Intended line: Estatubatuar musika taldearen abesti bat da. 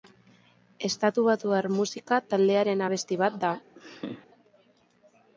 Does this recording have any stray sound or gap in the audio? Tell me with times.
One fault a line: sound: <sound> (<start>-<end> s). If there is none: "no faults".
sound: laugh (3.8-4.3 s)